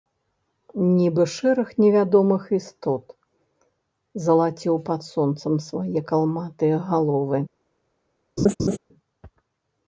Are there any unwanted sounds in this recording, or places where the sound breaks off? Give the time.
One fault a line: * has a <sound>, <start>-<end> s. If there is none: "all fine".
* has a laugh, 8.4-8.8 s